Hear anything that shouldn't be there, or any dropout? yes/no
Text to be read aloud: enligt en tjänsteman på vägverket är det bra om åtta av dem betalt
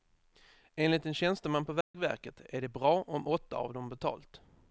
yes